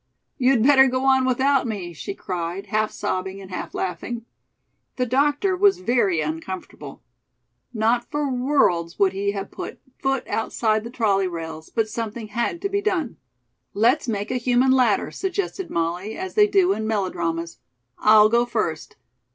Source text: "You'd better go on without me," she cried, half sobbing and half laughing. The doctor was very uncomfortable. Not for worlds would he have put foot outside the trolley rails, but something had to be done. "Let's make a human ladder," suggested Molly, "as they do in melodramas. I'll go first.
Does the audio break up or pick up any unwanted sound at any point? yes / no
no